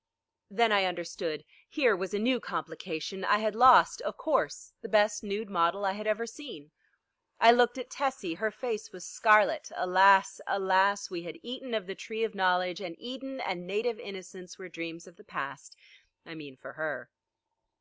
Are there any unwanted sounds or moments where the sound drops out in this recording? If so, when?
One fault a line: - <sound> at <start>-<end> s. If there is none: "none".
none